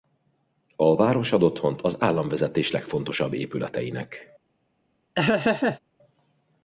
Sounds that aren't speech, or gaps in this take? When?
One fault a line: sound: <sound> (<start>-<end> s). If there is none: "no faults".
sound: laugh (5.1-5.8 s)